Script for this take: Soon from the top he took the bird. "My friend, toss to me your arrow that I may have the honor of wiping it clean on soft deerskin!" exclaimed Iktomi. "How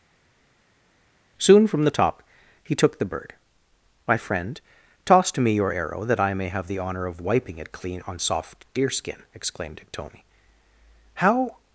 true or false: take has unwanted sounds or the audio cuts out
false